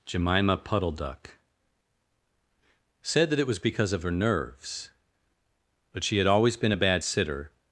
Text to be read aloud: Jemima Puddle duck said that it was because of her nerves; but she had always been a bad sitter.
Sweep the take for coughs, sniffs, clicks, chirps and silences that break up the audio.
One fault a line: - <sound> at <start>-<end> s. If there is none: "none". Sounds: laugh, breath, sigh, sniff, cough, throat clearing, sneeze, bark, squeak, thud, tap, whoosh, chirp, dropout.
none